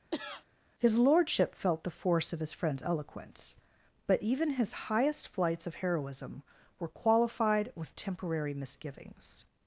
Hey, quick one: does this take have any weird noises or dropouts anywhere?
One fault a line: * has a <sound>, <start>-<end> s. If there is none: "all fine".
* has a cough, 0.1-0.5 s